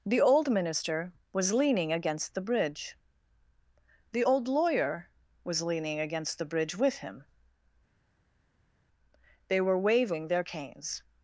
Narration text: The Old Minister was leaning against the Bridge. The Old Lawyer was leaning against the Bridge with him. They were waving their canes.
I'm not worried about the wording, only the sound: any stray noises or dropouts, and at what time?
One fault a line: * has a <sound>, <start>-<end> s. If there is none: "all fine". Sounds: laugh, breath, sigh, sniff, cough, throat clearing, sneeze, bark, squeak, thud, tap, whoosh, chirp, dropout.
all fine